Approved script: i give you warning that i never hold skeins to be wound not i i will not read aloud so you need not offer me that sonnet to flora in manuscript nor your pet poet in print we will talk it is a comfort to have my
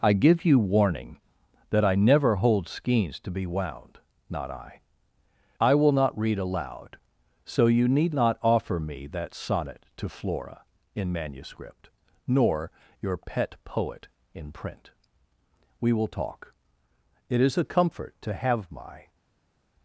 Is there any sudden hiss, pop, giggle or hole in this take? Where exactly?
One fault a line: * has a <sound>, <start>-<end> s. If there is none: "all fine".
all fine